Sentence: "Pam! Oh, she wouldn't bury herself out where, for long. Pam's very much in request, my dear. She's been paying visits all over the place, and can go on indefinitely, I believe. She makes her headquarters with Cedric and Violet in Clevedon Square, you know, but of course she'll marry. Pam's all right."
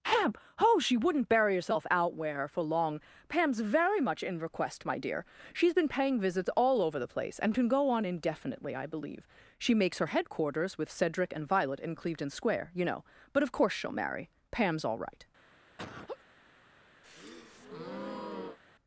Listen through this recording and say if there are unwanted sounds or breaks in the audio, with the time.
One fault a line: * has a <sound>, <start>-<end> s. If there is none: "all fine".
* has a laugh, 15.8-16.2 s
* has a breath, 17.0-18.6 s